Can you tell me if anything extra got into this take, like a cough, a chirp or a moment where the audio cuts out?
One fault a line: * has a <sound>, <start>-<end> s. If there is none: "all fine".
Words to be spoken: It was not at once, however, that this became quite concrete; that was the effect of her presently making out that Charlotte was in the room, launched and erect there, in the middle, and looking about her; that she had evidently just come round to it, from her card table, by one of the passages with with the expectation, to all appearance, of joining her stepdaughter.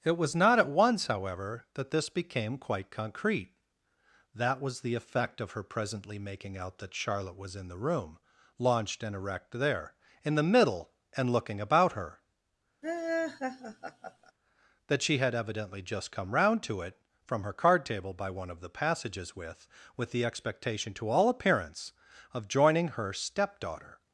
* has a laugh, 12.8-14.3 s